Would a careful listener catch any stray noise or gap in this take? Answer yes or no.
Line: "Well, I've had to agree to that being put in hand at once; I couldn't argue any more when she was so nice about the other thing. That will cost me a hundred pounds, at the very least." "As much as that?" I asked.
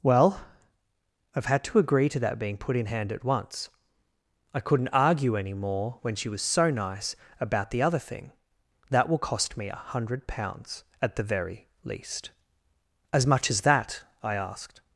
no